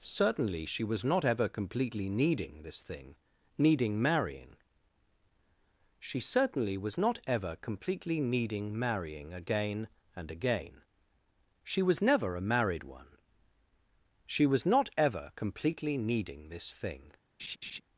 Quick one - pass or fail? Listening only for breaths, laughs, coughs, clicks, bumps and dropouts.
fail